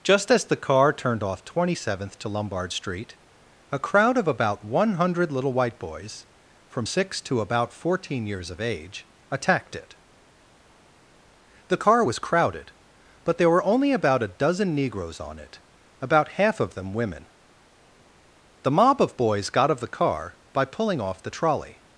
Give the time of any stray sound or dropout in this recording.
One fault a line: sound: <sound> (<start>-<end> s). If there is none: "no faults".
no faults